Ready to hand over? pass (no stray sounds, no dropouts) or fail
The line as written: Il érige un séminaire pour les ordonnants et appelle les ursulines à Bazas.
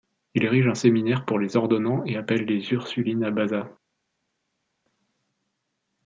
pass